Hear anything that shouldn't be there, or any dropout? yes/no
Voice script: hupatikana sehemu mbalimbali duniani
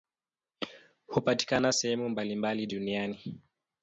no